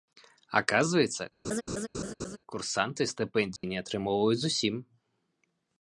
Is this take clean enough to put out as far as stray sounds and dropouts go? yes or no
no